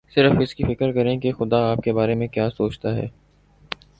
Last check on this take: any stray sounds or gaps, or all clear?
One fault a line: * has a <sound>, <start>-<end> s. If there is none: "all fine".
all fine